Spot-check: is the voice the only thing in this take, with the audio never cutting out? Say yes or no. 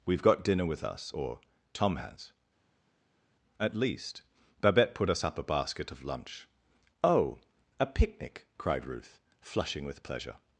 yes